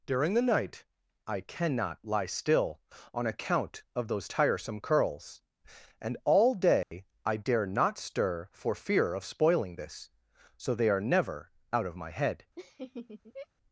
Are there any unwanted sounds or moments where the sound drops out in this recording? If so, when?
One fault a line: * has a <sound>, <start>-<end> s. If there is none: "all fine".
* has a dropout, 6.8-6.9 s
* has a laugh, 12.6-13.5 s